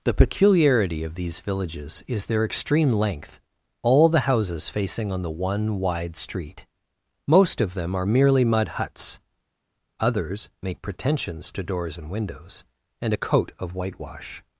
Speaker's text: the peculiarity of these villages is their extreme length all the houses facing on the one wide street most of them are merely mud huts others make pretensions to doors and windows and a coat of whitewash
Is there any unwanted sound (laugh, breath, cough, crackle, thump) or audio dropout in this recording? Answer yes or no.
no